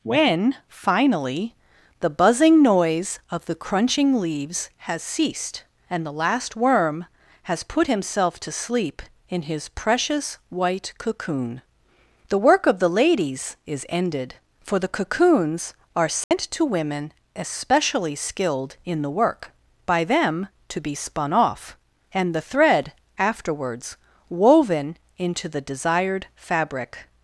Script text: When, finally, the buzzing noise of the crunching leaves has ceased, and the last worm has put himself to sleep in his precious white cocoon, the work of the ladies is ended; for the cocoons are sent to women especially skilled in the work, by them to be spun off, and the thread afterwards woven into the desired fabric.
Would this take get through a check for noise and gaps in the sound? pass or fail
fail